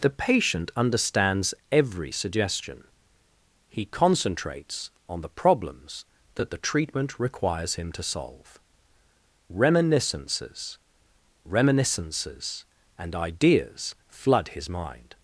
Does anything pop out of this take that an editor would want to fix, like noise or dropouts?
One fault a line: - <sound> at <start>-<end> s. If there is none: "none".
none